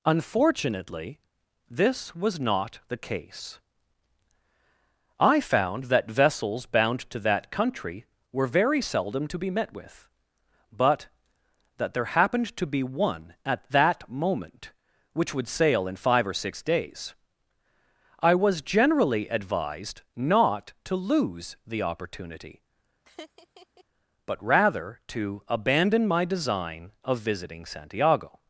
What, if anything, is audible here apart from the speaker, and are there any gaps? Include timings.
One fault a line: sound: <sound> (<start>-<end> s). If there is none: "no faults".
sound: laugh (23.1-23.8 s)